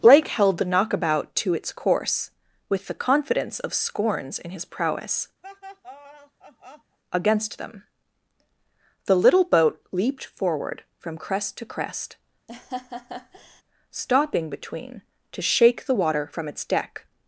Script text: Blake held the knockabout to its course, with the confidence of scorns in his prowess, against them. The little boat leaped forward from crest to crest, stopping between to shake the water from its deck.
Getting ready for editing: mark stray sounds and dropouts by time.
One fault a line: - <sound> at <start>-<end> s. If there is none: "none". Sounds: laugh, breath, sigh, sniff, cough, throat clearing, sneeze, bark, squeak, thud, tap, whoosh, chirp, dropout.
- laugh at 5.4-7.0 s
- laugh at 12.5-13.6 s